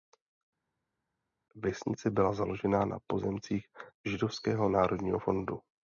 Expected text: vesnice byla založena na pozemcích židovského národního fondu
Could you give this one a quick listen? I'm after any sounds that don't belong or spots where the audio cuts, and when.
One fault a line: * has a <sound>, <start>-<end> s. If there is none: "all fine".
all fine